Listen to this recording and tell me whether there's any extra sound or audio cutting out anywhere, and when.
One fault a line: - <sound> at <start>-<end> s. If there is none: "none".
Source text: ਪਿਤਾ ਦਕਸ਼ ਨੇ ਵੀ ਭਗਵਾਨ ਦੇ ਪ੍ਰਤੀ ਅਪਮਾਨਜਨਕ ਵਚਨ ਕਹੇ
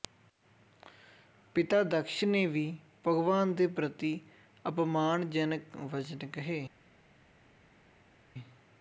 none